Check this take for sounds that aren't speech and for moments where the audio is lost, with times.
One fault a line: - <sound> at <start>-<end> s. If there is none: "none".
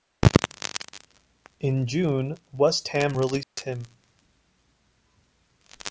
- dropout at 3.4-3.6 s